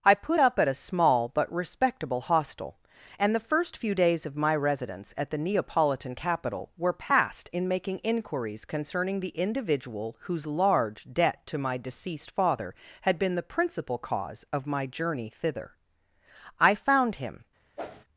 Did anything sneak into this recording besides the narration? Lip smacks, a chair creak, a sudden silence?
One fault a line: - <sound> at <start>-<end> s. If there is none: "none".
- whoosh at 17.8-18.0 s